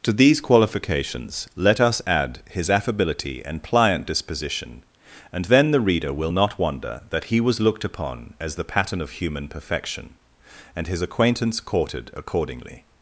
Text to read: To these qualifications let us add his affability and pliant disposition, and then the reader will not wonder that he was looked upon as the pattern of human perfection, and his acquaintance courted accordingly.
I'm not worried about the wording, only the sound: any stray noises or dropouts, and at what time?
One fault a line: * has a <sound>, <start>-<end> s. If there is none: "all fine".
all fine